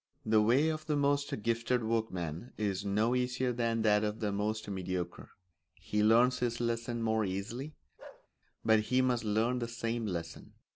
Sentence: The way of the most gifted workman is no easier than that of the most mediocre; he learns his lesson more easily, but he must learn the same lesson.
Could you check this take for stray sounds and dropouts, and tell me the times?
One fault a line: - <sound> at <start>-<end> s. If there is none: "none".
- bark at 8.0-8.3 s